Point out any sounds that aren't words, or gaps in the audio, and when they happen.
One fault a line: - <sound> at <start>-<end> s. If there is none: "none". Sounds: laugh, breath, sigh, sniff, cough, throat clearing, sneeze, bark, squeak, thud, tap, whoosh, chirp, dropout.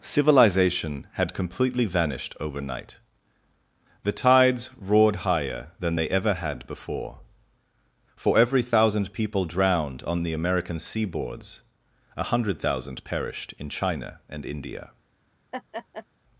- laugh at 15.5-16.1 s